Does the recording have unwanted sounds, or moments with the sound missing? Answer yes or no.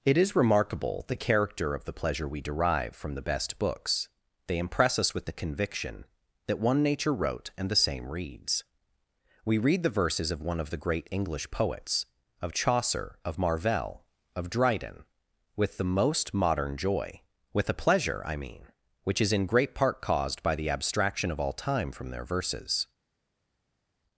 no